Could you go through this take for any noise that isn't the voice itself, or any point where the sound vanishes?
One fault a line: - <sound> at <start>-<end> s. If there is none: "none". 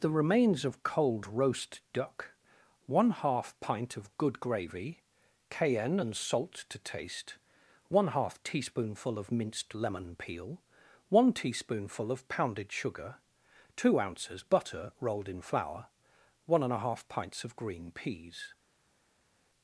none